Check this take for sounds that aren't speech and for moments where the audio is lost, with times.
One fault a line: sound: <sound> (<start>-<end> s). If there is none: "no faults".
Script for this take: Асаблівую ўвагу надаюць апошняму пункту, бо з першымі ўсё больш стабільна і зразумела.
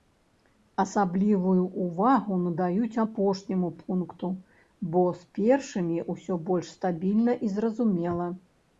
no faults